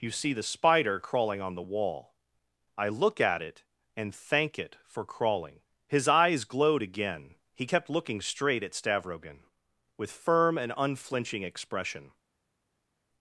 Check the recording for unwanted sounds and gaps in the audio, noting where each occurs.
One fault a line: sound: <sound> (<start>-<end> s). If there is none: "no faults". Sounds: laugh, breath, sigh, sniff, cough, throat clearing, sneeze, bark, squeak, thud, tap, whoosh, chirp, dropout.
no faults